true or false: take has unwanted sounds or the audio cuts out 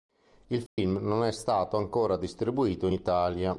true